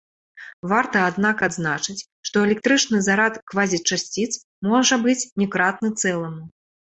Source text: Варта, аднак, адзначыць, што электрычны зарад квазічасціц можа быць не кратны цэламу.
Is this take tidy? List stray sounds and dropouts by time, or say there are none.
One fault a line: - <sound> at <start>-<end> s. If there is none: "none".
none